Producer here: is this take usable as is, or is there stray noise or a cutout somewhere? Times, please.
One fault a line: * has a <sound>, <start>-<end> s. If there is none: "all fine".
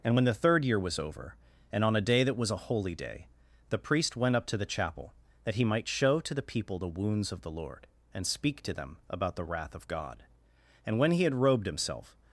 all fine